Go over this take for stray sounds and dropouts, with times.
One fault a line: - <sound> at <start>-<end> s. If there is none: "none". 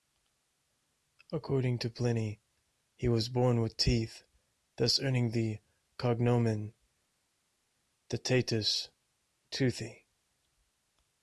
none